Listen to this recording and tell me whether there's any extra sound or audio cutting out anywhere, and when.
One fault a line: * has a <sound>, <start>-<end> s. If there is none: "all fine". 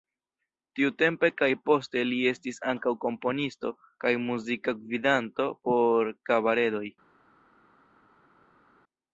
all fine